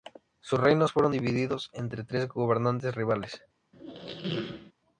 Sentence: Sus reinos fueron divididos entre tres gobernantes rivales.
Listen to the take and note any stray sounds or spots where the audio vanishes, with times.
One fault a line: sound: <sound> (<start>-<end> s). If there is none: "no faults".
sound: squeak (3.7-4.7 s)